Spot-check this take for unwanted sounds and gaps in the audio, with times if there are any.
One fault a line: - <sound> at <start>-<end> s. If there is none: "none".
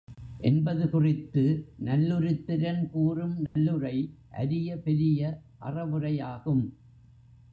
- dropout at 3.5-3.6 s